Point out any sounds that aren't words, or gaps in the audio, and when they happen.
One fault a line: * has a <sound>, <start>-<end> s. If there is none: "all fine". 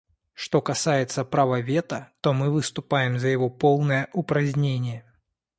all fine